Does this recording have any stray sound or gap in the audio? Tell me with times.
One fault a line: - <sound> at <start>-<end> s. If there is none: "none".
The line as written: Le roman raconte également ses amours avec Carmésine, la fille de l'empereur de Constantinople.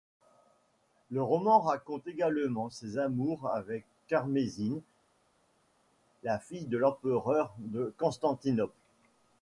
none